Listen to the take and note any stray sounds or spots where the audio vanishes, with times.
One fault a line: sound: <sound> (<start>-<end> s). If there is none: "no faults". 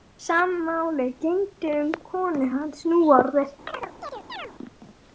sound: chirp (3.7-4.5 s)